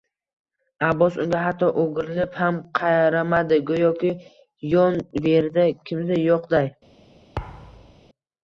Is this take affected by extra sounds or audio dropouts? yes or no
yes